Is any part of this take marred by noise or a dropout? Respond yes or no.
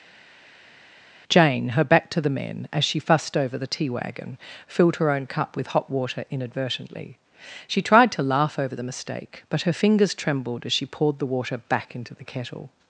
no